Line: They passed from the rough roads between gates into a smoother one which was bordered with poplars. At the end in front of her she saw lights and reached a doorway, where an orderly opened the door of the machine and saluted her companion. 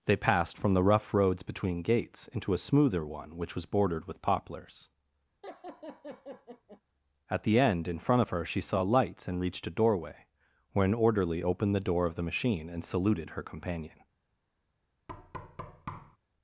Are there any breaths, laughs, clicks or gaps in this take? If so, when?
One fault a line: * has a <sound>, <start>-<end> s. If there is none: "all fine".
* has a laugh, 5.4-6.8 s
* has a thud, 15.1-16.2 s